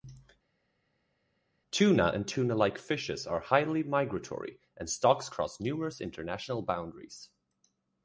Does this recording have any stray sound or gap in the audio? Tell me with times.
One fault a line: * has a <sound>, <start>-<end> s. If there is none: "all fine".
all fine